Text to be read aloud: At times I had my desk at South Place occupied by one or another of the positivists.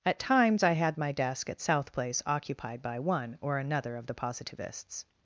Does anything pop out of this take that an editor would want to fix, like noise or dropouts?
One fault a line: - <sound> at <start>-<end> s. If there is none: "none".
none